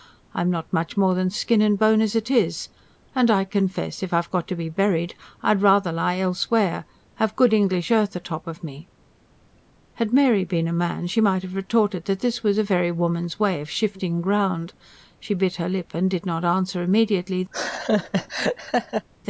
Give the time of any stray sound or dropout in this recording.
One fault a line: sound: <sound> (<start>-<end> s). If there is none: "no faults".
sound: laugh (17.5-19.1 s)